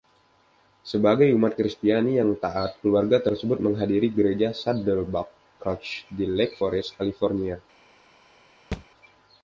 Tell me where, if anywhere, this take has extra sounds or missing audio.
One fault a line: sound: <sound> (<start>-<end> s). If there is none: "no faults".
sound: thud (8.7-8.9 s)